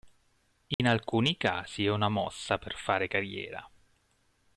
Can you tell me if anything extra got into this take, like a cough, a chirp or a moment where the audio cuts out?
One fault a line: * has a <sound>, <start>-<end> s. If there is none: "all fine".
* has a dropout, 0.7-0.8 s